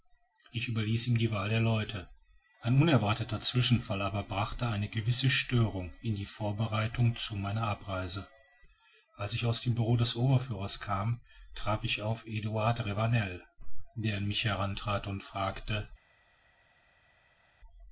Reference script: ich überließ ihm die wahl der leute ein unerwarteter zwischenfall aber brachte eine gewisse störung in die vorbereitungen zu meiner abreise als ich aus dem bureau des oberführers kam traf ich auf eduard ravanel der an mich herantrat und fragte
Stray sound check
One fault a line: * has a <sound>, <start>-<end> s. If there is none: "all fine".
all fine